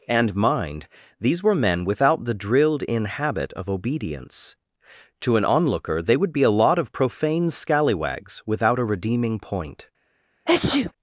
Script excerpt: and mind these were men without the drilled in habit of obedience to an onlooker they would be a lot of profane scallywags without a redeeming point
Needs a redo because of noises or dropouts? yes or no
yes